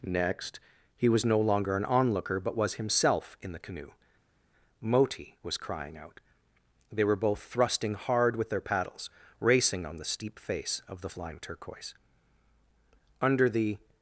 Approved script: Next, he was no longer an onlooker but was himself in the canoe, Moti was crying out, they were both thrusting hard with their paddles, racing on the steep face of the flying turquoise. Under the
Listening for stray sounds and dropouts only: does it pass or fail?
pass